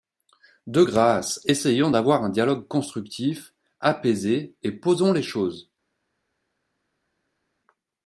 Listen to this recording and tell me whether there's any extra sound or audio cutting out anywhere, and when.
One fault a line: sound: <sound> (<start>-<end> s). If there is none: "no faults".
no faults